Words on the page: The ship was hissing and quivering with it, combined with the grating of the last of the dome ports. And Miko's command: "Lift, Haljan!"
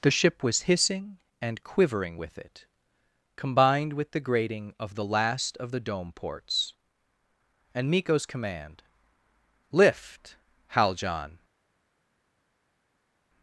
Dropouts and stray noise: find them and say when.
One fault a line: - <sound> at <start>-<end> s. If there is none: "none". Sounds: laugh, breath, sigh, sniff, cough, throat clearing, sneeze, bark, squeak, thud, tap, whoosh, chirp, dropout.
none